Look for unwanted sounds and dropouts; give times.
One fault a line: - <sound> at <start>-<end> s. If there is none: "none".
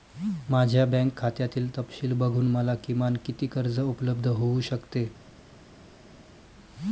none